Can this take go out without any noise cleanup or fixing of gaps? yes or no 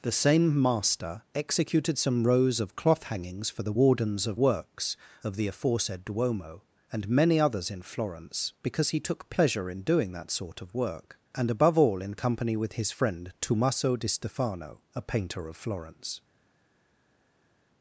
yes